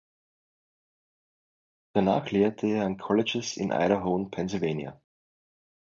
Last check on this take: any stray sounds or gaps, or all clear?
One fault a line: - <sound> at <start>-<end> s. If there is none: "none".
none